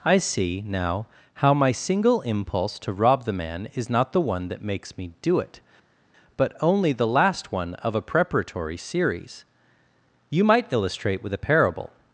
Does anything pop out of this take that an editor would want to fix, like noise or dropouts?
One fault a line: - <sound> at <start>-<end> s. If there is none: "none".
none